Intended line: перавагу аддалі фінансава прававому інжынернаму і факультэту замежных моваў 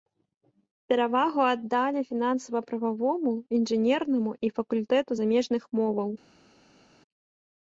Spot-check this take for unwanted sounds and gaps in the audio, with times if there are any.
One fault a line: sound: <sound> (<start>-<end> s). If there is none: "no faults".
no faults